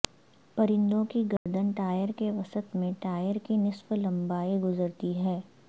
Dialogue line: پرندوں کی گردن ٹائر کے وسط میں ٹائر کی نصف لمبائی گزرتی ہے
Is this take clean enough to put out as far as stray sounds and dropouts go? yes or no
no